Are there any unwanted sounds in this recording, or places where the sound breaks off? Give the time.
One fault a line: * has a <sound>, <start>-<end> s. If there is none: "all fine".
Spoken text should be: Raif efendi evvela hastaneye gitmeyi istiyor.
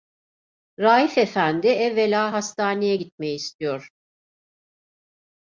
all fine